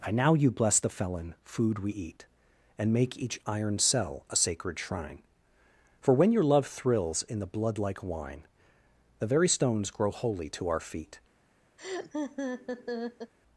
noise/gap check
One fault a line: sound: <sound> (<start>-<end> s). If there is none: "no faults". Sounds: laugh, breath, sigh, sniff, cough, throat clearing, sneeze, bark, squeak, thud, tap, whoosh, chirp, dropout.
sound: laugh (11.8-13.3 s)